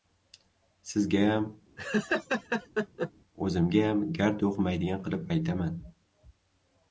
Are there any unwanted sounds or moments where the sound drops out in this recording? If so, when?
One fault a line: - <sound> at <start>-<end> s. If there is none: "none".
- laugh at 1.8-3.1 s